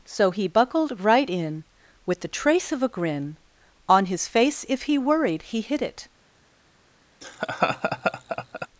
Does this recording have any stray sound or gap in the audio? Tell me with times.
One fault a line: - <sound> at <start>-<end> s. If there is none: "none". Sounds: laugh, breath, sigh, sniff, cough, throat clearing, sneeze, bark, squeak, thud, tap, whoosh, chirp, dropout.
- laugh at 7.2-8.7 s